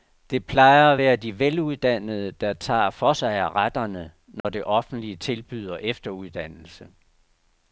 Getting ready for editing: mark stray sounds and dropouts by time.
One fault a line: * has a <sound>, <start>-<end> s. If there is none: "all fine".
* has a dropout, 4.4-4.4 s